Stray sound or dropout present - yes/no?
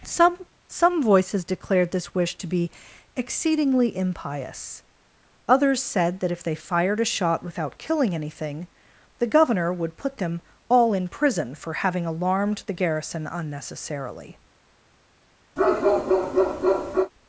yes